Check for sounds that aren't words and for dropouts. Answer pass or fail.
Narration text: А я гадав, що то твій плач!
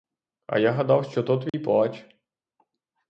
fail